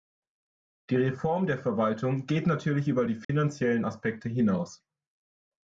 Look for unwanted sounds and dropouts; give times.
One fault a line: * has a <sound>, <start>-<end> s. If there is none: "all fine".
* has a dropout, 3.2-3.3 s